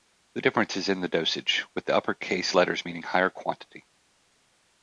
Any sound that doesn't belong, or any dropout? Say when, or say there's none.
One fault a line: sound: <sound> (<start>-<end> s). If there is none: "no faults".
no faults